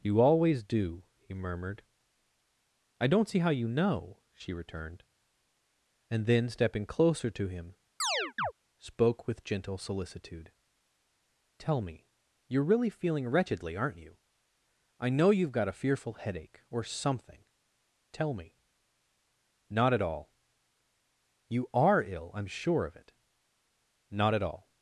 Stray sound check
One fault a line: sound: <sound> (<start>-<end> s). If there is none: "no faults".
sound: chirp (8.0-8.5 s)